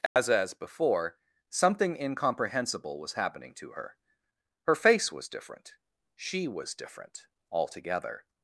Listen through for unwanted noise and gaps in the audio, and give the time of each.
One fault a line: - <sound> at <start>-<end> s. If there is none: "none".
- dropout at 0.1-0.2 s